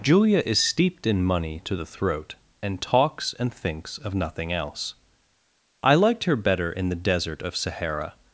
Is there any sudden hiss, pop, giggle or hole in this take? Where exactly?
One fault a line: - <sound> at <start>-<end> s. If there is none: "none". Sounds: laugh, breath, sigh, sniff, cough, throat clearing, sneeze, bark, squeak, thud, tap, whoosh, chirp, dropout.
none